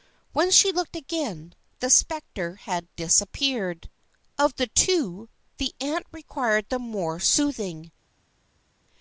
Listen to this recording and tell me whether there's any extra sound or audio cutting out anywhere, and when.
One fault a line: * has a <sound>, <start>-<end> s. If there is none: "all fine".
all fine